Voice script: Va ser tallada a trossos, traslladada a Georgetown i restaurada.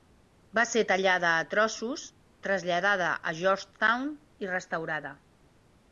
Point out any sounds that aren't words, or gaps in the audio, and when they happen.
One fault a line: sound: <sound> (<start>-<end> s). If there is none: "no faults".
no faults